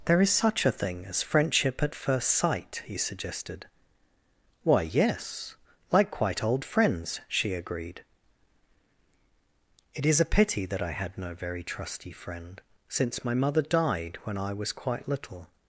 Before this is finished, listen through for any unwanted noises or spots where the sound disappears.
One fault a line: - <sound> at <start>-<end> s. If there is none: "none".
none